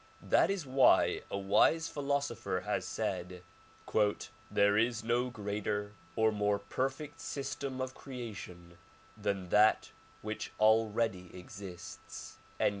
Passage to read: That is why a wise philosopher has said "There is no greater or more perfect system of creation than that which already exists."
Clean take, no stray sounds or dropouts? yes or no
yes